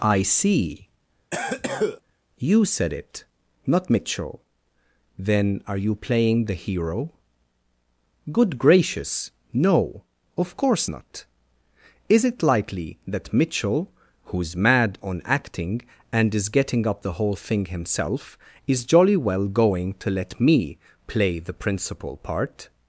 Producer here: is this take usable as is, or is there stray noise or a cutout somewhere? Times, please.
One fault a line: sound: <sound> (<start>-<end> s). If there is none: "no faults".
sound: cough (1.3-2.0 s)